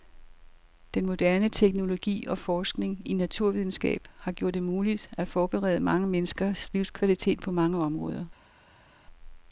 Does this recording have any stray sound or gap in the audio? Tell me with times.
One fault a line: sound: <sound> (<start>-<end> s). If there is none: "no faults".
no faults